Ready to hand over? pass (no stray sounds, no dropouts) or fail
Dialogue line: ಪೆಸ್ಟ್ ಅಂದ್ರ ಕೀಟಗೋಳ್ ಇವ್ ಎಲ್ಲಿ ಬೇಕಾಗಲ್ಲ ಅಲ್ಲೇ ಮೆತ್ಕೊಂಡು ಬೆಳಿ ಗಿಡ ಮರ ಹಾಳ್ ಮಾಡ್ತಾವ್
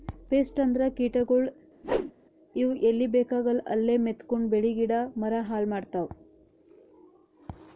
fail